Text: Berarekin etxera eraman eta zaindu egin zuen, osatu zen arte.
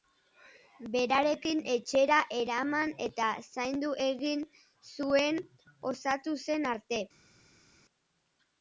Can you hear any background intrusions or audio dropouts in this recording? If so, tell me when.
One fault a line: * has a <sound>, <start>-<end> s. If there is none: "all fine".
all fine